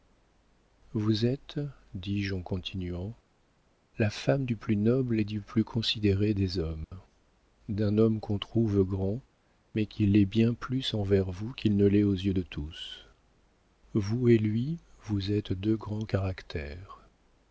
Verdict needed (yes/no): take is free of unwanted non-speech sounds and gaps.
no